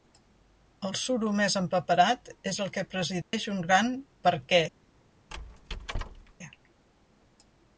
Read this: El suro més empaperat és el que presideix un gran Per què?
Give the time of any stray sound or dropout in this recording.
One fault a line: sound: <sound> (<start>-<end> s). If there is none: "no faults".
sound: dropout (3.2-3.3 s)
sound: squeak (5.3-6.3 s)